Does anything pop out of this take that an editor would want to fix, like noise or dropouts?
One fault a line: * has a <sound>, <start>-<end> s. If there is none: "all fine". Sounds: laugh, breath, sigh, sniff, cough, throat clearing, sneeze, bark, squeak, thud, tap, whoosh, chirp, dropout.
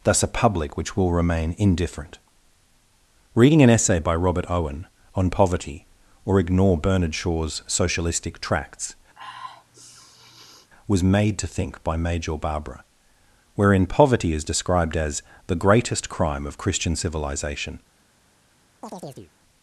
* has a sniff, 9.1-10.7 s
* has a chirp, 18.8-19.3 s